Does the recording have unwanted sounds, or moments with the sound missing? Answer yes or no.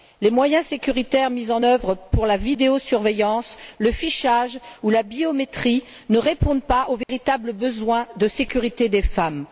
yes